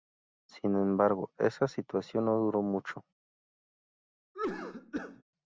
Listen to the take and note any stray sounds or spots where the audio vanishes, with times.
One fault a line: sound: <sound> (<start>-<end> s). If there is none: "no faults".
sound: cough (4.3-5.2 s)